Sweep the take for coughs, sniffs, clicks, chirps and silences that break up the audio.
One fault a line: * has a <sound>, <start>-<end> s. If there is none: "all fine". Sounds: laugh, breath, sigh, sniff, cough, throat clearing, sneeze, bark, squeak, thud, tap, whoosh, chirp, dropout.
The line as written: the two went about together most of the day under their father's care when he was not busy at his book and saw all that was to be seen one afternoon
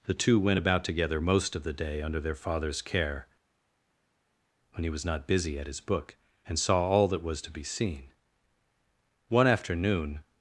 all fine